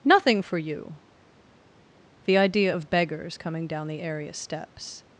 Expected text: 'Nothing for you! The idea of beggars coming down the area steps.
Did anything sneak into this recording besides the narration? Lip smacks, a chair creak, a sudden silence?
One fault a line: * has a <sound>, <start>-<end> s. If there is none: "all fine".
all fine